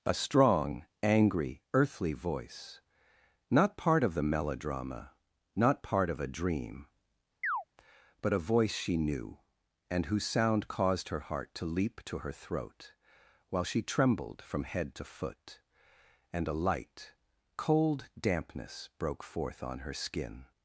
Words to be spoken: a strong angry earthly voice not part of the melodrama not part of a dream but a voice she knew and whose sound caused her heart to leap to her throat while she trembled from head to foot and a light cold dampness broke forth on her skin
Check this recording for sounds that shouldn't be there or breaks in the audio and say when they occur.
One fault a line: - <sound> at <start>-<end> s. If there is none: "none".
- chirp at 7.4-7.6 s